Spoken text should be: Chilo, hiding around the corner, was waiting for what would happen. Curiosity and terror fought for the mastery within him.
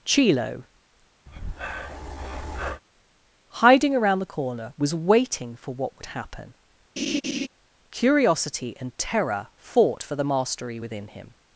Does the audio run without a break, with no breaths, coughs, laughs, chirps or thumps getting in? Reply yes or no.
no